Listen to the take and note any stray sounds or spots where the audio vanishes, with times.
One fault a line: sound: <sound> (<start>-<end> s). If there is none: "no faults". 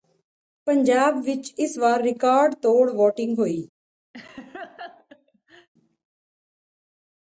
sound: laugh (4.1-5.7 s)